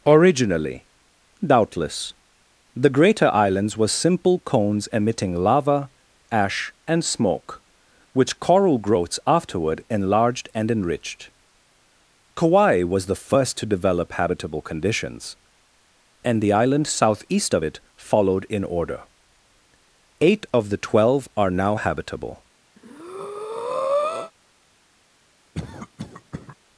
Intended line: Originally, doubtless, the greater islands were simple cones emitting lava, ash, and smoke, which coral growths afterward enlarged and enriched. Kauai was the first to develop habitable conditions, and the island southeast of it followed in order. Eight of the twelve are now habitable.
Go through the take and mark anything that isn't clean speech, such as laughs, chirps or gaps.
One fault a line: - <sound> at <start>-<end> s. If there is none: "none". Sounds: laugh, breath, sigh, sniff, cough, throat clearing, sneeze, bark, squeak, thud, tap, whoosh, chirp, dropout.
- breath at 22.8-24.3 s
- cough at 25.5-26.6 s